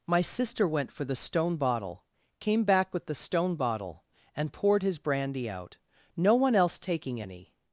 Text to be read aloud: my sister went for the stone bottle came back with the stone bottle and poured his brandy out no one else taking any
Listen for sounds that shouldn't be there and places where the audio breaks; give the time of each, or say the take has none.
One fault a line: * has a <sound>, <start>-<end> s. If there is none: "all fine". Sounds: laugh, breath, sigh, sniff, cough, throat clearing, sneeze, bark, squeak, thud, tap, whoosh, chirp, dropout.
all fine